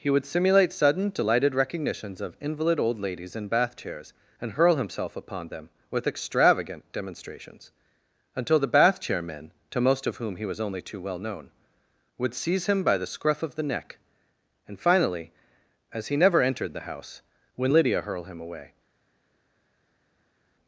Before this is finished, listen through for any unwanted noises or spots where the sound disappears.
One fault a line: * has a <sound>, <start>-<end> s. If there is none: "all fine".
all fine